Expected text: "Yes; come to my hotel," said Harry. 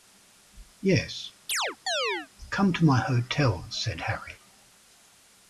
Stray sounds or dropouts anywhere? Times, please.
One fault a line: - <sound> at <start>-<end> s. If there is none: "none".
- chirp at 1.5-2.3 s